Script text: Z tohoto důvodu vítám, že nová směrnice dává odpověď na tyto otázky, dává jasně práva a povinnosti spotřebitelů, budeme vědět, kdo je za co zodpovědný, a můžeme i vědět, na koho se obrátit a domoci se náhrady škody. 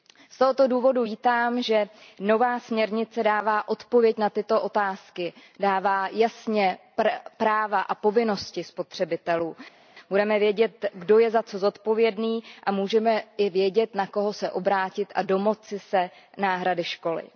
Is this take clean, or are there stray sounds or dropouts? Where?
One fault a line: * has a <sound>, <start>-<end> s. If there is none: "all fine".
all fine